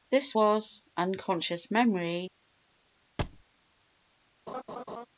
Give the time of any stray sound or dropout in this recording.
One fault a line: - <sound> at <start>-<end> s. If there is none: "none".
- thud at 3.2-3.4 s
- laugh at 4.5-5.1 s